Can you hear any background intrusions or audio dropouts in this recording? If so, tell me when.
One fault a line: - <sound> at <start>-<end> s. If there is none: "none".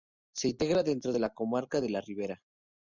none